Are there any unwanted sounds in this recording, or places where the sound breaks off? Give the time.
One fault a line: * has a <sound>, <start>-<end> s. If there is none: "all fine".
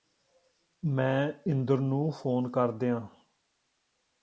all fine